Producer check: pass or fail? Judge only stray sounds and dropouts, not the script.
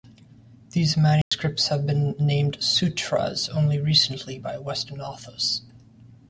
fail